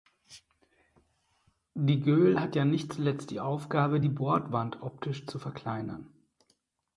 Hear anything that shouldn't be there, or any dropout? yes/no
no